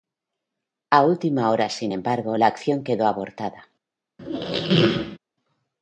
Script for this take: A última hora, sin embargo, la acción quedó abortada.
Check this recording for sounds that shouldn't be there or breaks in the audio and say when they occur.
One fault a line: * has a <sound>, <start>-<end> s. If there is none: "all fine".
* has a squeak, 4.2-5.2 s